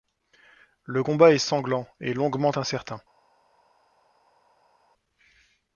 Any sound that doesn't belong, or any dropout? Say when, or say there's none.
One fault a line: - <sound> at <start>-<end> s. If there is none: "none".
none